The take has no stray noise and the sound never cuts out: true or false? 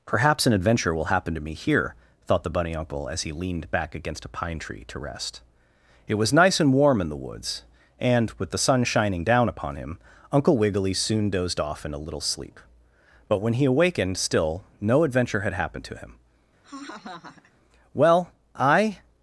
false